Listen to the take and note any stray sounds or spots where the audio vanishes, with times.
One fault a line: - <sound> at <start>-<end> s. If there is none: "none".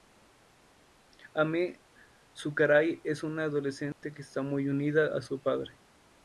- dropout at 3.9-4.0 s